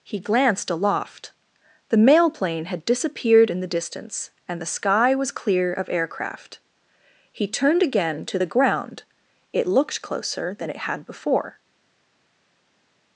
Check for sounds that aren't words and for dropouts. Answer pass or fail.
pass